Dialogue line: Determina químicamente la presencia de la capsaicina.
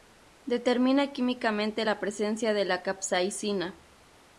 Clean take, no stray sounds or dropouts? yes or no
yes